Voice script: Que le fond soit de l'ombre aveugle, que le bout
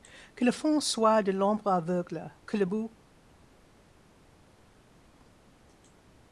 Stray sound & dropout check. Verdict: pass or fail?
pass